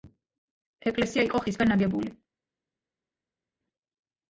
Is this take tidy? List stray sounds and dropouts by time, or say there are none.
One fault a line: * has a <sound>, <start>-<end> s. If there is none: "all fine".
all fine